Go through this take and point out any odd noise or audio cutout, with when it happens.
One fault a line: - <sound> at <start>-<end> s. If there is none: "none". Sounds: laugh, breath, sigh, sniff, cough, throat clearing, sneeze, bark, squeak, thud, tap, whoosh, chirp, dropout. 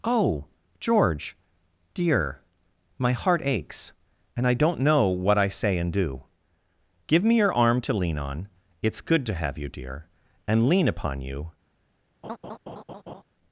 - laugh at 12.2-13.2 s